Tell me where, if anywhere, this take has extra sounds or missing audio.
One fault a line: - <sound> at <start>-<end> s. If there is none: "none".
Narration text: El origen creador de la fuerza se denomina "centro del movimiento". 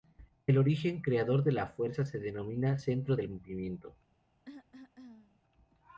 - cough at 4.5-5.4 s